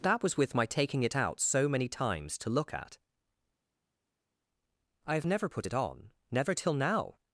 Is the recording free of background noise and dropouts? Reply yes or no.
yes